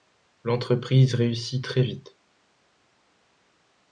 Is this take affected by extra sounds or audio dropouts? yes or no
no